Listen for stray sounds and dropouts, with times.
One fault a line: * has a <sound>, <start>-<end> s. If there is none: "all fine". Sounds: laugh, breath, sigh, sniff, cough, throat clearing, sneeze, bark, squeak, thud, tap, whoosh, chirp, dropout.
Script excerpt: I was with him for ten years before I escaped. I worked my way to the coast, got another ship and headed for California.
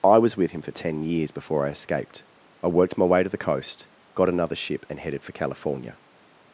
all fine